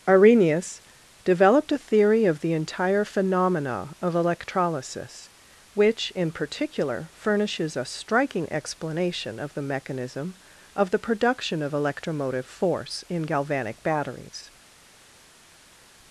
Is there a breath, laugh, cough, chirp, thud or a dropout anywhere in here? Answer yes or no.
no